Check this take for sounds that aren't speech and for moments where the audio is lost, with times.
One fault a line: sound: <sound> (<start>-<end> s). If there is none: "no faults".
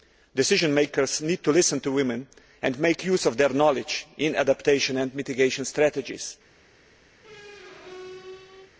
sound: squeak (7.2-8.7 s)